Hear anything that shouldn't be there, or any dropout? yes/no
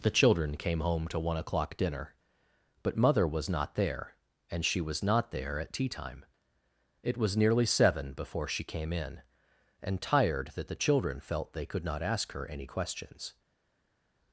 no